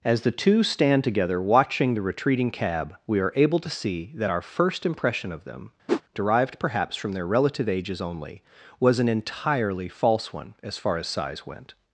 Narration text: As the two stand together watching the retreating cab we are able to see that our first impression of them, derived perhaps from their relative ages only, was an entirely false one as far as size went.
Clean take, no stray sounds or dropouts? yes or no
no